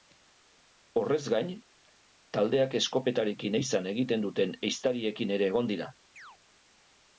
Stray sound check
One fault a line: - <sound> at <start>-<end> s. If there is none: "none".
- chirp at 6.2-6.4 s